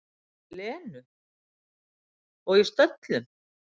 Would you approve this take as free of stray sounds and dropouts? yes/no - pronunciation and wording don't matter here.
yes